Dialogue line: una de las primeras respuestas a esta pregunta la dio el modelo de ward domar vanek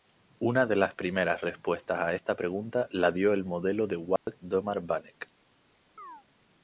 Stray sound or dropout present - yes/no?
yes